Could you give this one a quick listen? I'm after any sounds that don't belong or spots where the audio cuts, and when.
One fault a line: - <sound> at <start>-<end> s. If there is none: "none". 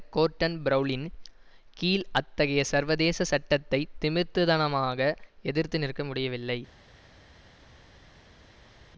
none